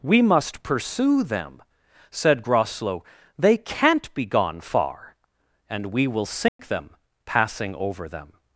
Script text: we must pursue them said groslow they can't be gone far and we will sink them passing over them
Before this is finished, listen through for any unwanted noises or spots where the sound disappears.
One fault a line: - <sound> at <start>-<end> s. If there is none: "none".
- dropout at 6.5-6.6 s